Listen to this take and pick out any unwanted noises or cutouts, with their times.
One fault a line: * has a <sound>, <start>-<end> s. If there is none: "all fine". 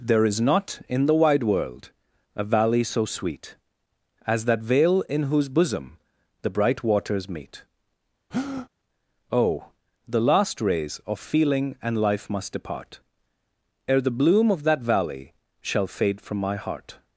* has a breath, 8.3-8.7 s